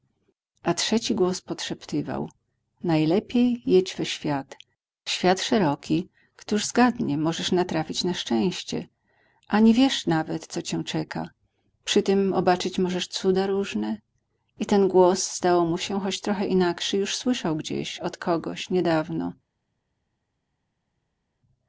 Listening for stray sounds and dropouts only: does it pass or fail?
pass